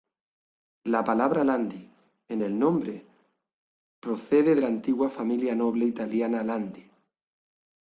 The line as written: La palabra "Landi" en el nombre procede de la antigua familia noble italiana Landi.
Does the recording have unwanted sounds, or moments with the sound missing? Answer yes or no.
no